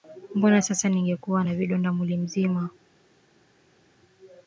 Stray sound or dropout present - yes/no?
no